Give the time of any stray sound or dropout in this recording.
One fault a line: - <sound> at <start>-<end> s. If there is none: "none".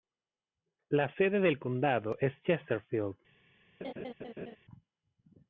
- laugh at 3.8-4.6 s